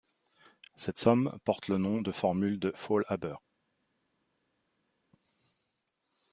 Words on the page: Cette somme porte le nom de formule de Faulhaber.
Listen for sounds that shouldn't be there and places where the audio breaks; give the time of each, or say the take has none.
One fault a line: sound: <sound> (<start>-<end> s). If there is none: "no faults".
no faults